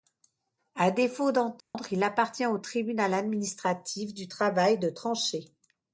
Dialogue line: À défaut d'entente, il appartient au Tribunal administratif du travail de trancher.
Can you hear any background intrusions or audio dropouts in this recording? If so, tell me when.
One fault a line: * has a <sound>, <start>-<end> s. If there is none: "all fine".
* has a dropout, 1.6-1.7 s